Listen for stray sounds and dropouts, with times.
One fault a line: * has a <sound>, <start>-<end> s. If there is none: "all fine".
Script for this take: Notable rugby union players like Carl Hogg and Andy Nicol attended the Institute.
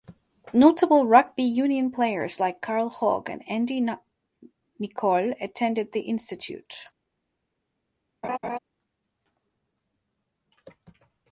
* has a laugh, 8.2-8.6 s